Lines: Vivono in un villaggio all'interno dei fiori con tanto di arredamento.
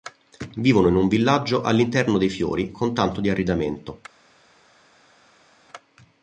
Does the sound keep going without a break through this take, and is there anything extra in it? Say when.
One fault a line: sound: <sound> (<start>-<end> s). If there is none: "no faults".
no faults